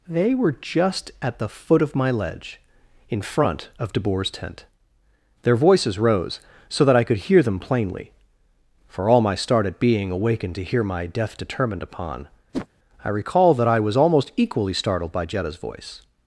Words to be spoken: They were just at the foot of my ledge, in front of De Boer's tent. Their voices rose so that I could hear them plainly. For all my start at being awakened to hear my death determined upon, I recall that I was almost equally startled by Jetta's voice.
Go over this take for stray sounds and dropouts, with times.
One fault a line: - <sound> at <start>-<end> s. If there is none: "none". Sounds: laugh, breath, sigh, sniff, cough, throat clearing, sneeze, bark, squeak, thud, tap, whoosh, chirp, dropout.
- whoosh at 12.5-12.7 s